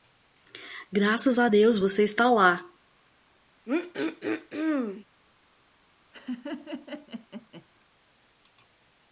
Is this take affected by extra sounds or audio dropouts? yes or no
yes